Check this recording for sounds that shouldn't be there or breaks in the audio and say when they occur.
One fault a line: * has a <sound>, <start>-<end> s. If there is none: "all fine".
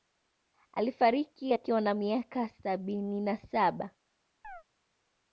* has a chirp, 4.4-4.6 s